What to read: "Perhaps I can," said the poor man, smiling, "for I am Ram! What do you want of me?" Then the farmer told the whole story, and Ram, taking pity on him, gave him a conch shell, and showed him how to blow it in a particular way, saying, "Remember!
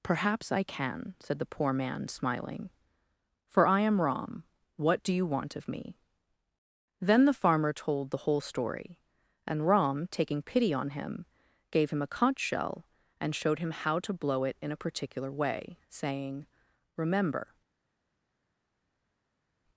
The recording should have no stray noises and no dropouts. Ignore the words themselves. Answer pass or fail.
pass